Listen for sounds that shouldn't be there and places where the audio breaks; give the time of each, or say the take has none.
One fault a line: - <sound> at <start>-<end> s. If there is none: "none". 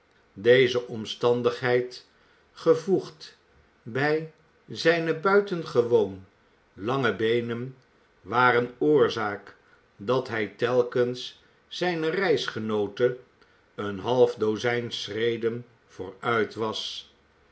none